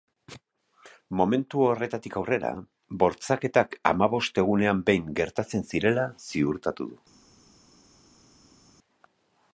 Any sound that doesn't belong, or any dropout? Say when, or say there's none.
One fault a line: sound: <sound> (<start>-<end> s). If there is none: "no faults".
no faults